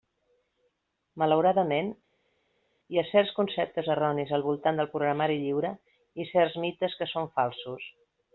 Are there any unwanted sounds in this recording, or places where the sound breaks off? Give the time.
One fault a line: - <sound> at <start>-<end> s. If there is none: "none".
none